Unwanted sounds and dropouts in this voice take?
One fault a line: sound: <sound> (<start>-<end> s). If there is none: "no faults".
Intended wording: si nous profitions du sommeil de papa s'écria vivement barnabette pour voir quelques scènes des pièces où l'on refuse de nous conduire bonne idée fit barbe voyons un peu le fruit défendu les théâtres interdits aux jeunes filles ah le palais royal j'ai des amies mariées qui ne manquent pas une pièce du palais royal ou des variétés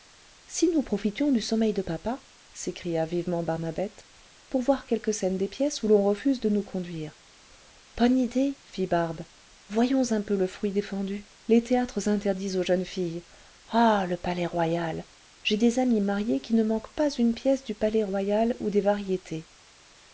no faults